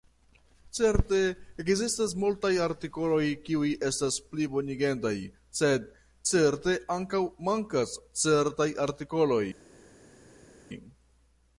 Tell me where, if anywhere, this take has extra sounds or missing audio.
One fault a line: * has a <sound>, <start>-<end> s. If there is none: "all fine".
all fine